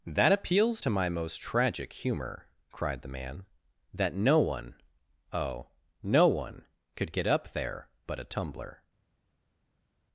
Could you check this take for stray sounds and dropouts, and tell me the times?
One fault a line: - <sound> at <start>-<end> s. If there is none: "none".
none